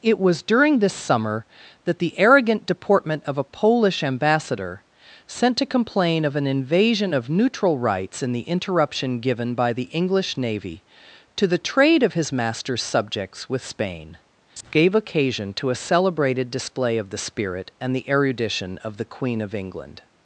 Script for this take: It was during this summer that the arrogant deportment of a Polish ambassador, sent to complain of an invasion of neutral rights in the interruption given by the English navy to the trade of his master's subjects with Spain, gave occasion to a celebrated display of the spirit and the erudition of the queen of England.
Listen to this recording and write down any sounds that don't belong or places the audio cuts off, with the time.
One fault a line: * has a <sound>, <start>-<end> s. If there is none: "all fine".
all fine